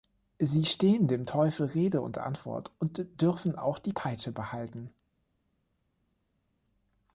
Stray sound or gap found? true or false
false